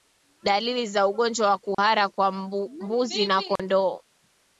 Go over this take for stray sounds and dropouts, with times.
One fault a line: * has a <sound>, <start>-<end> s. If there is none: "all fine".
* has a dropout, 1.7-1.8 s
* has a dropout, 3.6-3.6 s